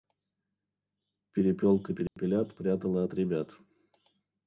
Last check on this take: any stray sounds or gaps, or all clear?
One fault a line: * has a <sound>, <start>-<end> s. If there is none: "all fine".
* has a dropout, 2.1-2.2 s